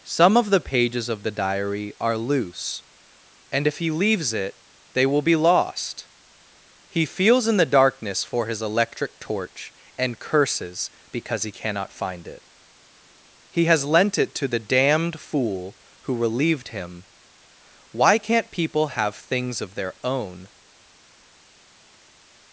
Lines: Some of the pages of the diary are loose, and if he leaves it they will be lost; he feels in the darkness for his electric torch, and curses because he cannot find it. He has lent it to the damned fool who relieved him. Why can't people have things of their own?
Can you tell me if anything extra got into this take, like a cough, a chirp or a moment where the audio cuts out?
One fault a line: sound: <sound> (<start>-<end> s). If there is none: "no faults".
no faults